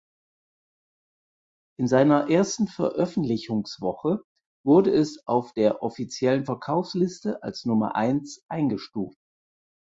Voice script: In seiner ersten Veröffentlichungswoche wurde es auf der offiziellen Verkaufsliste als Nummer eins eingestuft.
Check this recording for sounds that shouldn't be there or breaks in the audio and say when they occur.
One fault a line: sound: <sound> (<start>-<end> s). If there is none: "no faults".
no faults